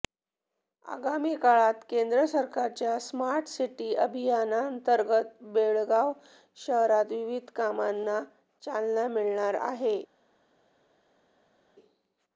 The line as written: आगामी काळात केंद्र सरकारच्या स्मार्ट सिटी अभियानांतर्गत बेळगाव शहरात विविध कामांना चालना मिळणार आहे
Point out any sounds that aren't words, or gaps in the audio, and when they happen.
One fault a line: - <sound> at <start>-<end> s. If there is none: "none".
none